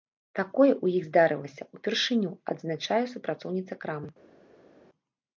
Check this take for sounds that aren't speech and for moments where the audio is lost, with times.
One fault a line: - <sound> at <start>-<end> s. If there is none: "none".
none